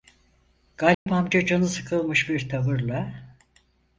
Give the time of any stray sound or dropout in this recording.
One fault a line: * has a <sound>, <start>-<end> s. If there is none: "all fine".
* has a dropout, 0.9-1.1 s